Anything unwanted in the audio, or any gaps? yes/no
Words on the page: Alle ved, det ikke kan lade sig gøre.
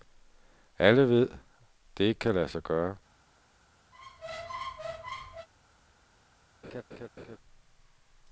yes